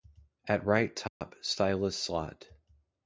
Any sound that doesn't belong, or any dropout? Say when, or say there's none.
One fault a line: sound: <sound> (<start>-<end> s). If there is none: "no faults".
sound: dropout (1.1-1.2 s)